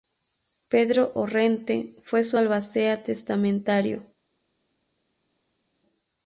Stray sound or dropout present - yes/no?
no